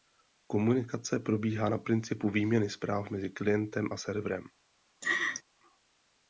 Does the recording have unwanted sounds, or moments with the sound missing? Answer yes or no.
yes